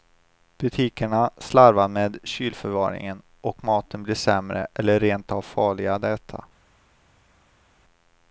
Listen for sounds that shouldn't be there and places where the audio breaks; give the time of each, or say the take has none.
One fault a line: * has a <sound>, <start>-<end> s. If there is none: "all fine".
all fine